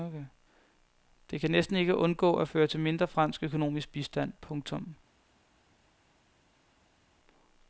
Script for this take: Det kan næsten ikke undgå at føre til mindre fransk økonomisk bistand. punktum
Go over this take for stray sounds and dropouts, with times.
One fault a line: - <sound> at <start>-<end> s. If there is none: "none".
none